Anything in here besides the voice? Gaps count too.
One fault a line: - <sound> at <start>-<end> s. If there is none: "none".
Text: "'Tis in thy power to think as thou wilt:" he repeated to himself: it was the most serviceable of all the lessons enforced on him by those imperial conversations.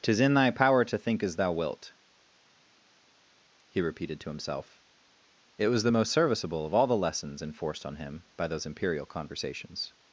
none